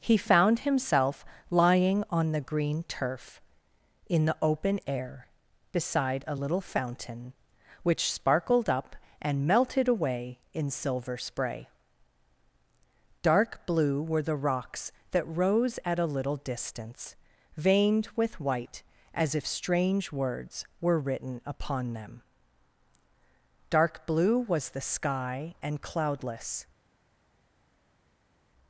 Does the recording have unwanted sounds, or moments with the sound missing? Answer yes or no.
no